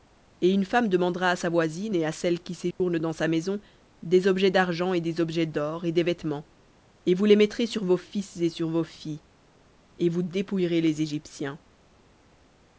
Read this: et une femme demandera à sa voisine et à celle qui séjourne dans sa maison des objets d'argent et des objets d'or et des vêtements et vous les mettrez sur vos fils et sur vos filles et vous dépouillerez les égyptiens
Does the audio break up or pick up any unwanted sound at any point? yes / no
yes